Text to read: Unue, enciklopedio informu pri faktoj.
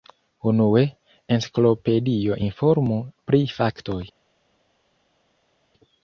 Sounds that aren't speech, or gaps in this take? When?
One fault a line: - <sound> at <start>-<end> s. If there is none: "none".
none